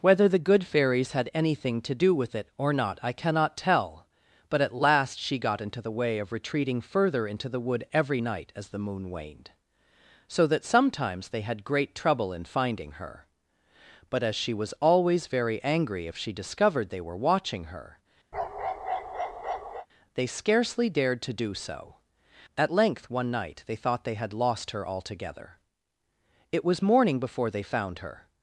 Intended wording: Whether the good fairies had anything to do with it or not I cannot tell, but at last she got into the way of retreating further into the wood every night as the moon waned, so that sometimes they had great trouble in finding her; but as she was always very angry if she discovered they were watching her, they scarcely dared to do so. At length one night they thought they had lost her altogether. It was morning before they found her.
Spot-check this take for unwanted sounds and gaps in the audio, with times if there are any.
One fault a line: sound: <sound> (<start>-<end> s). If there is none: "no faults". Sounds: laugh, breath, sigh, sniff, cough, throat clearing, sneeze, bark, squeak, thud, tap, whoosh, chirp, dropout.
sound: bark (18.3-19.9 s)